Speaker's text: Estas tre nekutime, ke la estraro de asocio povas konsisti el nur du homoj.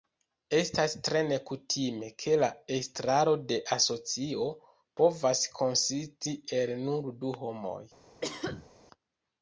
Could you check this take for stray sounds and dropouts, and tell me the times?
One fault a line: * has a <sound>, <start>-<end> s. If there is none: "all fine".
* has a cough, 8.2-8.7 s